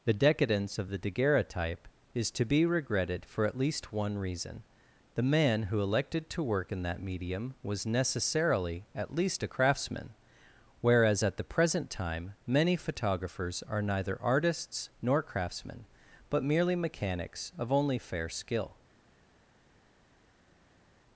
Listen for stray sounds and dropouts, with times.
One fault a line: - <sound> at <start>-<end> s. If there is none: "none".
none